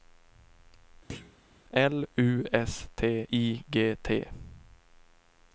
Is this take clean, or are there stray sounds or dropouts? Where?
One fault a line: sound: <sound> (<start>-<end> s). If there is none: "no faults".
sound: thud (1.1-1.4 s)